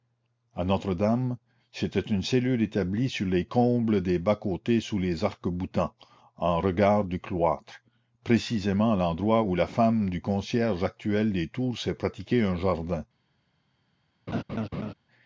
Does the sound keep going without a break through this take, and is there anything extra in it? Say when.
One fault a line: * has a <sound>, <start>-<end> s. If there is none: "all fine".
* has a laugh, 14.3-14.9 s